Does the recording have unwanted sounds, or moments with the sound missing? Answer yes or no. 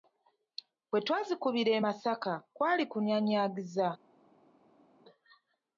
no